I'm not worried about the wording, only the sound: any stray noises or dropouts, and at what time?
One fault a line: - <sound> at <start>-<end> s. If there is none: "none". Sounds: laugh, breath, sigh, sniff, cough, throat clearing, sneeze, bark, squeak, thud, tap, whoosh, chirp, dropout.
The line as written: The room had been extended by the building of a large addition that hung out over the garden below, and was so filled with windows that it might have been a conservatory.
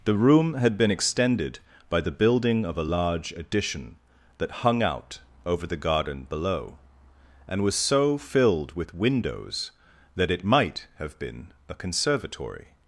none